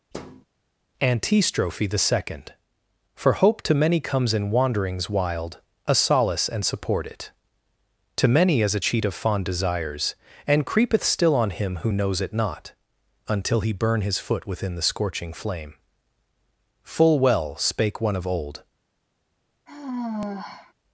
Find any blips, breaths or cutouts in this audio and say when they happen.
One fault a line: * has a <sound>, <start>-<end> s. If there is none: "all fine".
* has a thud, 0.1-0.5 s
* has a sigh, 19.7-20.7 s